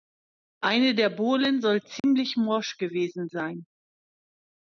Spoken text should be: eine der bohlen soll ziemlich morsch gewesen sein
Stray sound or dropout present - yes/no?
yes